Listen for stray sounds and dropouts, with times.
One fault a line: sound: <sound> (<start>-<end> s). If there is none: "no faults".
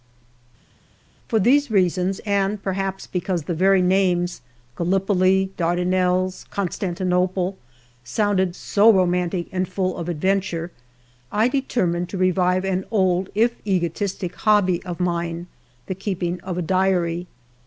no faults